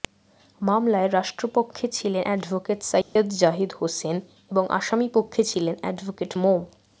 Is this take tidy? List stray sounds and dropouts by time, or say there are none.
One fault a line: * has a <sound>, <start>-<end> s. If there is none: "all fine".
* has a dropout, 3.0-3.2 s